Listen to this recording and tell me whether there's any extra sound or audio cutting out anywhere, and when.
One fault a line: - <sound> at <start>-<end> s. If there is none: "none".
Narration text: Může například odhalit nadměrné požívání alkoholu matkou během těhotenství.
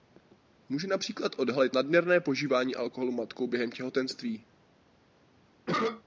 - cough at 5.7-6.0 s